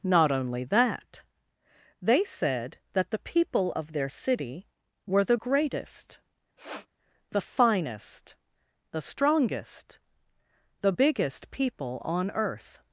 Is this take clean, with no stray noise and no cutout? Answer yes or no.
no